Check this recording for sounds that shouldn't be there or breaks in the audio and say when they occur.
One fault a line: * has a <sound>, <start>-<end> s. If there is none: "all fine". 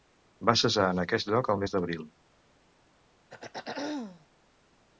* has a throat clearing, 3.3-4.3 s